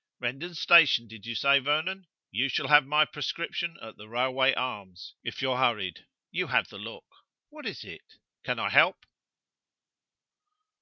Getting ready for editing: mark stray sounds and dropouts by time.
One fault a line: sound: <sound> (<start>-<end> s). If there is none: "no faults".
no faults